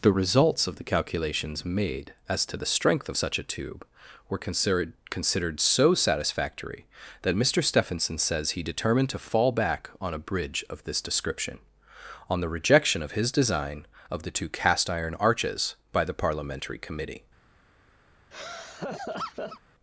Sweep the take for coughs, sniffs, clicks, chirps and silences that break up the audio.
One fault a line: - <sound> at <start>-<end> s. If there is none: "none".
- laugh at 18.3-19.6 s